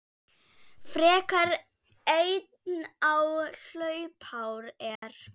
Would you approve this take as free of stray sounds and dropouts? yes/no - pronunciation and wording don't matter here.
no